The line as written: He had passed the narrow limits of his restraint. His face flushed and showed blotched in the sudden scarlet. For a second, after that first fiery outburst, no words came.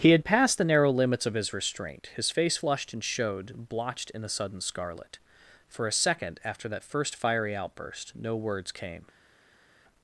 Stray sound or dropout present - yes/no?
no